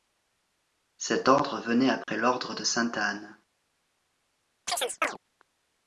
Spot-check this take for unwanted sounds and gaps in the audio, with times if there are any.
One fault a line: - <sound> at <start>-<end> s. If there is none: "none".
- dropout at 2.0-2.1 s
- chirp at 4.7-5.2 s